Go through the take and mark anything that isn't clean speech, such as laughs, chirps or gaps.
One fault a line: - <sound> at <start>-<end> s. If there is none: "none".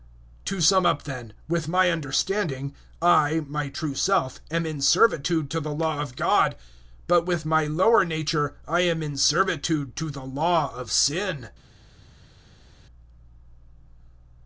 none